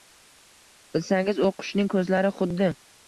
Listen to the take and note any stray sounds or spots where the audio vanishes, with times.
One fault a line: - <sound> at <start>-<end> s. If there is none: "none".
none